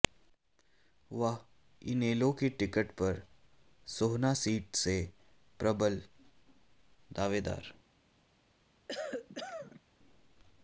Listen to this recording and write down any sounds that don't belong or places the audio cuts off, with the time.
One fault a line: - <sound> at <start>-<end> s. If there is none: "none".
- cough at 8.9-9.8 s